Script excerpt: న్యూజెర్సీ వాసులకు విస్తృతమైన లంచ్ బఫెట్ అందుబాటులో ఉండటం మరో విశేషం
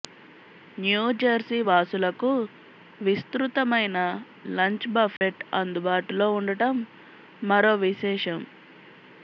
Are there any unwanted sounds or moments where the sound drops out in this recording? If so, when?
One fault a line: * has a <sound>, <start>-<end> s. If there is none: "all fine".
* has a dropout, 5.2-5.2 s